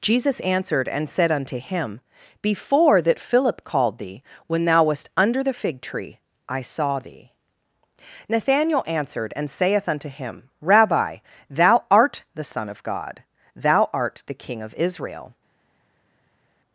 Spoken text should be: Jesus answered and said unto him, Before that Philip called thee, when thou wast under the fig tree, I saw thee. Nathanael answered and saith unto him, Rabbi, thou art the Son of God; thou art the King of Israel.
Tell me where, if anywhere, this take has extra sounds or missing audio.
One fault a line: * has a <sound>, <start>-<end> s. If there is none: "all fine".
all fine